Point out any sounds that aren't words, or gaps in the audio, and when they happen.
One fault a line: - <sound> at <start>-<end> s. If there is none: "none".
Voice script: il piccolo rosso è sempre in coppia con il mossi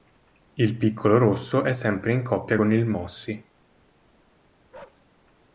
- bark at 4.7-5.1 s